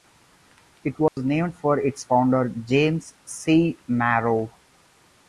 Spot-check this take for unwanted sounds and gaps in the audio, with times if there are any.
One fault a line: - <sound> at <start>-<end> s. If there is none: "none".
- dropout at 1.1-1.2 s